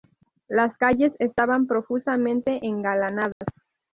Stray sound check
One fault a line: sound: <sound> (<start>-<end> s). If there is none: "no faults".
sound: dropout (3.3-3.4 s)